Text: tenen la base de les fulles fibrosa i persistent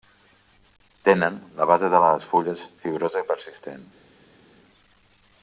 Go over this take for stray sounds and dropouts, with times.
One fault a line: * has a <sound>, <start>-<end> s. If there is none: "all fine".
all fine